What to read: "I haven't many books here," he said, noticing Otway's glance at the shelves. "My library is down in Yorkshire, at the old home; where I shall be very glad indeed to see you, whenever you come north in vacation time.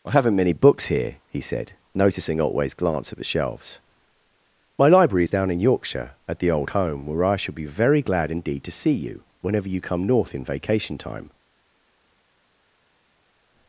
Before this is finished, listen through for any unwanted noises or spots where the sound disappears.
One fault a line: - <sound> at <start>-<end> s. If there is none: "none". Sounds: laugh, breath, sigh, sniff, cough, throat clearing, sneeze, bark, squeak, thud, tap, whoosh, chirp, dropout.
none